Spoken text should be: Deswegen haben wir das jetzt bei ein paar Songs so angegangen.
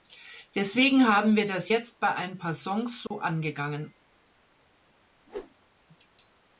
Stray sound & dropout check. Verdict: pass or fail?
fail